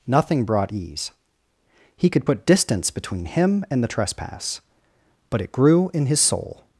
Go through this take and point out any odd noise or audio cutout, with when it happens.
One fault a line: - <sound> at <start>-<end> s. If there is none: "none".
none